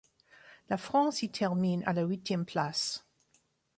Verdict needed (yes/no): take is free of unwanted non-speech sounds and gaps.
yes